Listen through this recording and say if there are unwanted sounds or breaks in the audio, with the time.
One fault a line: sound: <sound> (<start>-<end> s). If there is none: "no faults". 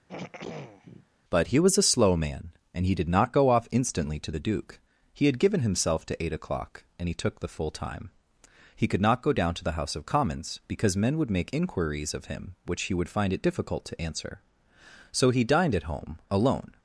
sound: throat clearing (0.1-1.1 s)